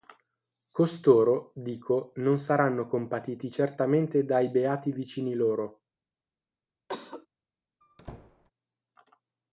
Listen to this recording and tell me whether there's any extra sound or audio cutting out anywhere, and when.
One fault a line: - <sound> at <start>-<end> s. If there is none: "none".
- cough at 6.9-7.3 s
- squeak at 7.8-8.5 s